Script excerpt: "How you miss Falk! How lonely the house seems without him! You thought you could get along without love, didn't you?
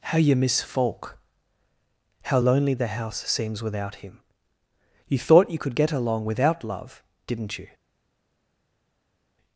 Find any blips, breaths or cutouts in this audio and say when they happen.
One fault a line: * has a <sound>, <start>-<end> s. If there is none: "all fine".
all fine